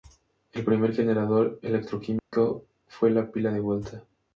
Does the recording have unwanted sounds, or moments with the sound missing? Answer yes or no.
yes